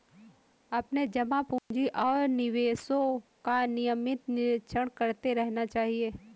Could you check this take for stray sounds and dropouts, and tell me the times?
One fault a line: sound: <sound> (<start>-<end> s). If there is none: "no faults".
sound: dropout (1.6-1.7 s)